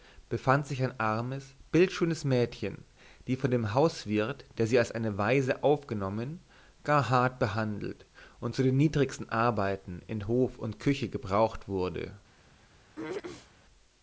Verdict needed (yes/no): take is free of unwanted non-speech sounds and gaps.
no